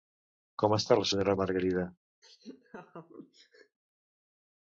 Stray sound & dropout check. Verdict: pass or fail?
fail